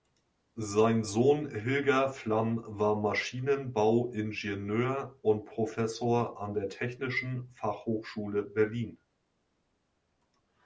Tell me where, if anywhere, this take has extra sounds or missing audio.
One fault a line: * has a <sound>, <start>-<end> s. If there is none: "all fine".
all fine